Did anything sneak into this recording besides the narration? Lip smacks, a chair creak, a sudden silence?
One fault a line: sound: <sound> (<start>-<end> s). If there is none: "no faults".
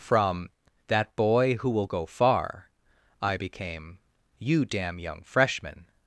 no faults